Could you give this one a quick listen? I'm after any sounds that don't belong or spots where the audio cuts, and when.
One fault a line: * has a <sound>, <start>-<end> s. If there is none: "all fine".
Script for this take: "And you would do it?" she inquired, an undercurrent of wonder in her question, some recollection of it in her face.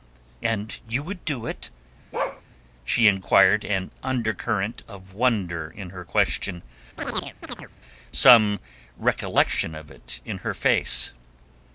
* has a bark, 2.1-2.4 s
* has a chirp, 7.0-7.7 s